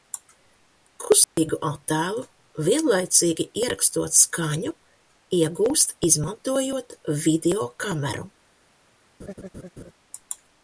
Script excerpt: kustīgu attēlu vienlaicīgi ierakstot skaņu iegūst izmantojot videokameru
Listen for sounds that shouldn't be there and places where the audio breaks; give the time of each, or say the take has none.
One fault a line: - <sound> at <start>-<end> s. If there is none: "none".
- dropout at 1.2-1.4 s
- laugh at 9.2-9.9 s